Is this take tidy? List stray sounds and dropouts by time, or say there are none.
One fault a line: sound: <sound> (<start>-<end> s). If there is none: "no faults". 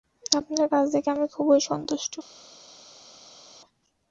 no faults